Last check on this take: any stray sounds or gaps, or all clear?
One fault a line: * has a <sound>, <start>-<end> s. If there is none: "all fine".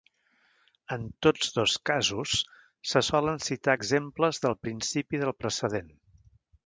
all fine